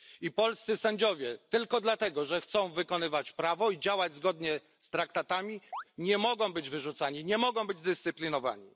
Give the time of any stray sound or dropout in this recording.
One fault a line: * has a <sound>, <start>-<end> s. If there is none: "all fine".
* has a chirp, 5.7-5.8 s